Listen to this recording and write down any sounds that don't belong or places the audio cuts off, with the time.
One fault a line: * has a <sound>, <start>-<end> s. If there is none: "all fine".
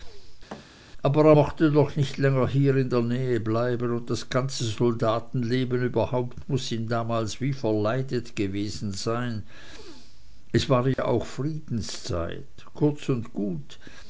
* has a thud, 0.5-0.7 s
* has a dropout, 10.9-11.0 s